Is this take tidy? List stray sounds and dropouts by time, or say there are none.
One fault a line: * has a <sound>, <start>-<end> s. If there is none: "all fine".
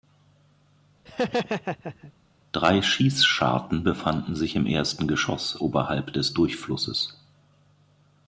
* has a laugh, 1.1-2.1 s